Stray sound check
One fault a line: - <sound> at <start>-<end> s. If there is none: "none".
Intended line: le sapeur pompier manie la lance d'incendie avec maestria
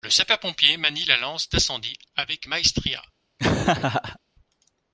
- laugh at 3.4-4.2 s